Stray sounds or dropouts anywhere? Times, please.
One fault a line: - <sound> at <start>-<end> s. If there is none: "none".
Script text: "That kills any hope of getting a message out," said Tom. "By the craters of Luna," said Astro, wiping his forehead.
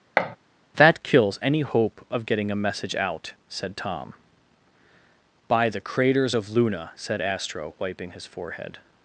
- thud at 0.2-0.4 s